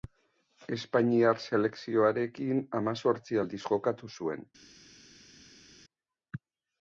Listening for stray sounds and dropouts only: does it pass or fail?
pass